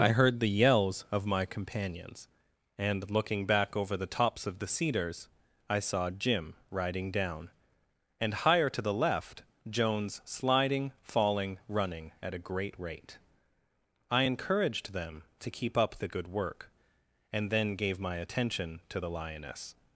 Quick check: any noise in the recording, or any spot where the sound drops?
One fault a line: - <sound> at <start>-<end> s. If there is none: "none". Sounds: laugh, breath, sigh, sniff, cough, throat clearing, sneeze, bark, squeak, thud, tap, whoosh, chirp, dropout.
none